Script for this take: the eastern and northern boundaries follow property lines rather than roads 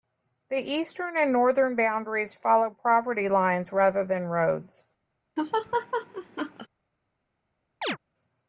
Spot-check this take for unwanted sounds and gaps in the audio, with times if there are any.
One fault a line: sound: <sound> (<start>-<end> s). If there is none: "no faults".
sound: laugh (5.4-6.7 s)
sound: chirp (7.8-8.0 s)